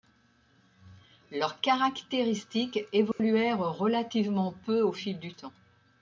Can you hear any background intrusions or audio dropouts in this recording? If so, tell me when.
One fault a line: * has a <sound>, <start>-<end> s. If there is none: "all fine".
* has a dropout, 3.1-3.2 s